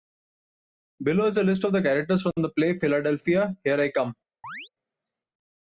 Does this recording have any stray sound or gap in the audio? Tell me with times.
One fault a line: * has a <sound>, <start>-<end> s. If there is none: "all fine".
* has a chirp, 4.4-4.7 s